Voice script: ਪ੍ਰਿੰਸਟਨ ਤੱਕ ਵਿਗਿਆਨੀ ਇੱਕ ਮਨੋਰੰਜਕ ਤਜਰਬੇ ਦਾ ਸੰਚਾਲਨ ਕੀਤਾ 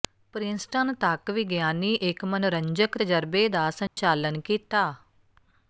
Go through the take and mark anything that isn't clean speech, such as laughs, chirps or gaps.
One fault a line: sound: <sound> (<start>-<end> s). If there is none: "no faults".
sound: dropout (3.9-4.0 s)